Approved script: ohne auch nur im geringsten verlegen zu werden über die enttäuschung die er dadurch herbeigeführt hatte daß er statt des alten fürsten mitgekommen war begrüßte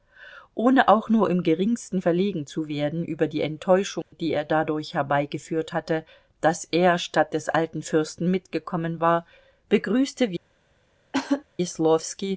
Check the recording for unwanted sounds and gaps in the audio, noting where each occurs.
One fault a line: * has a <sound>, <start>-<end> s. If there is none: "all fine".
* has a dropout, 4.0-4.1 s
* has a cough, 11.1-11.4 s